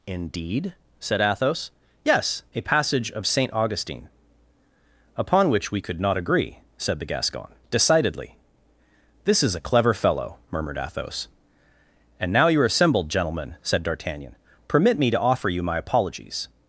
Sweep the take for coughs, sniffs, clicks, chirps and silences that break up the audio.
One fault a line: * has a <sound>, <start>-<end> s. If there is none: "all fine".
all fine